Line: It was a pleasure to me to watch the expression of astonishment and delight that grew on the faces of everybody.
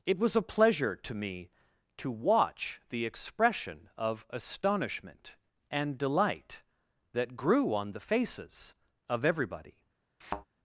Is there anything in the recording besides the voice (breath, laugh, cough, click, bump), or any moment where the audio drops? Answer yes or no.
yes